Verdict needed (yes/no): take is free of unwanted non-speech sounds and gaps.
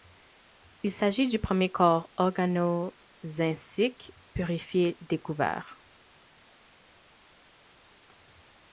yes